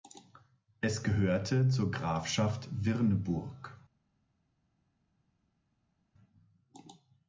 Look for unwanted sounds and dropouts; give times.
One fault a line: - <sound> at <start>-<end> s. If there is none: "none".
none